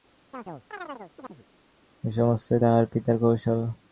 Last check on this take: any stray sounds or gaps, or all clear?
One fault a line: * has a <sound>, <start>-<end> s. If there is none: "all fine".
* has a chirp, 0.3-1.5 s